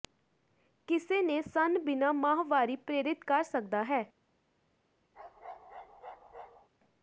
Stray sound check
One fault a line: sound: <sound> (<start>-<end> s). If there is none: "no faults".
sound: bark (5.1-6.7 s)